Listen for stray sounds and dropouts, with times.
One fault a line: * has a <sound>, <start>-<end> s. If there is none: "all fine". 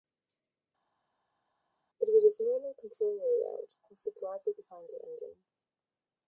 all fine